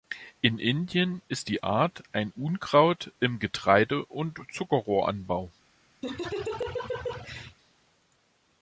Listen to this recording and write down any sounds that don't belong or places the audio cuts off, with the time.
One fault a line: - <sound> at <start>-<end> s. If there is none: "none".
- laugh at 6.0-7.6 s